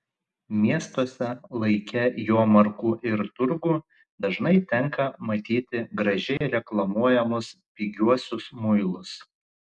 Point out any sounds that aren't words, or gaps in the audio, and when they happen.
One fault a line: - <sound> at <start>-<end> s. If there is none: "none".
- dropout at 6.4-6.4 s